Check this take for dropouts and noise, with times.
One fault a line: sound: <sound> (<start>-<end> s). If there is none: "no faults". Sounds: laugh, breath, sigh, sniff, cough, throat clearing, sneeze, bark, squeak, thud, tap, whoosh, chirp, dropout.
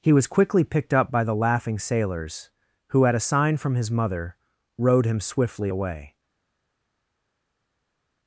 no faults